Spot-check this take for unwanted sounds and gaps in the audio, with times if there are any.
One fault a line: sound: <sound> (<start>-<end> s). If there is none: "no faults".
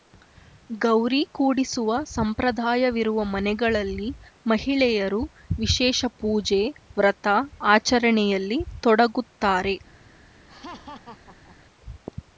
sound: laugh (10.5-11.6 s)